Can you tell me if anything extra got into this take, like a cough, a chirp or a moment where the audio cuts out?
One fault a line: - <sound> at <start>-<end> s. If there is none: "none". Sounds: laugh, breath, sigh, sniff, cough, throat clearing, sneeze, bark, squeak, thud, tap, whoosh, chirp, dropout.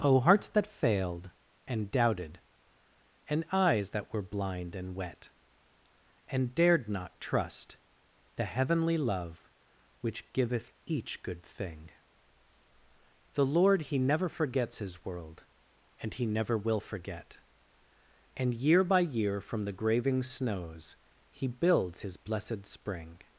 none